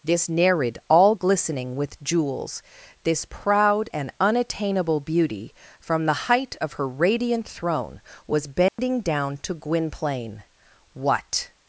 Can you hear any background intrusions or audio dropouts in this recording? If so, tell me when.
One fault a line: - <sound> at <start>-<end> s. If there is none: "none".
- dropout at 8.7-8.8 s